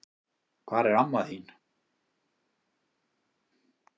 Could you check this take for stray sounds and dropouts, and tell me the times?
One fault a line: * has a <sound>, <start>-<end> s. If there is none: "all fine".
all fine